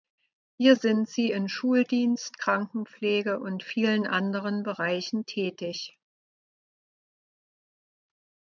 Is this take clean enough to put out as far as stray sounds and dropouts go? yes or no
yes